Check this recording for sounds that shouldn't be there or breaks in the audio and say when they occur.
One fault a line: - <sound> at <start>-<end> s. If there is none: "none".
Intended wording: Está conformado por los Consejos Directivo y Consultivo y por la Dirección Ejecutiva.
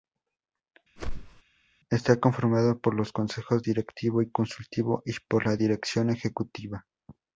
- whoosh at 1.0-1.4 s